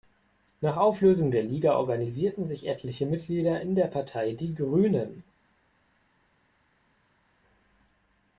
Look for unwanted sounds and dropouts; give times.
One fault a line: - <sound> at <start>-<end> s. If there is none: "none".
none